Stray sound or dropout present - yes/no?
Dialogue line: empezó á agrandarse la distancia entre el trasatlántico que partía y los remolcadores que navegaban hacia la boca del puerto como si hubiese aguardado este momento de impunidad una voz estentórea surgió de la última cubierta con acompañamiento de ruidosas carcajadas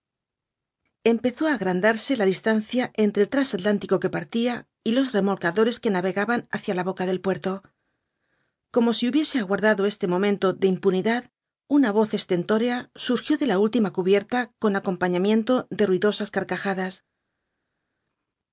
no